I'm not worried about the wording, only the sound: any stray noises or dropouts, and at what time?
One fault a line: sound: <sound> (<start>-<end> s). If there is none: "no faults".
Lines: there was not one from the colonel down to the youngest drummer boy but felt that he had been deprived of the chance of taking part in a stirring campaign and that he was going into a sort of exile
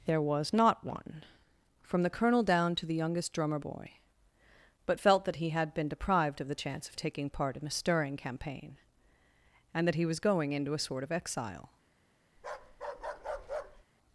sound: bark (12.4-13.8 s)